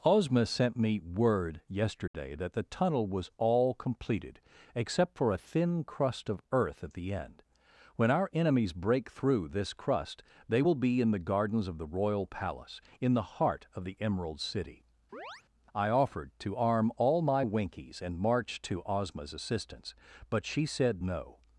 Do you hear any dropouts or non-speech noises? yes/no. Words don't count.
yes